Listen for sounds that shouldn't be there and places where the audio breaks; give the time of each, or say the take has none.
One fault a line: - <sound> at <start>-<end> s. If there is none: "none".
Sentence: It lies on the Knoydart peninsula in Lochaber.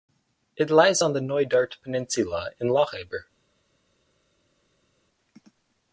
none